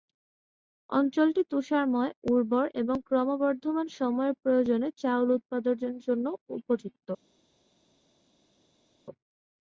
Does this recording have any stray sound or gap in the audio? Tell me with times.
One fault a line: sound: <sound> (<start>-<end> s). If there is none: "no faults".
no faults